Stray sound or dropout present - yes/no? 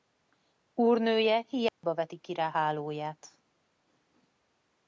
yes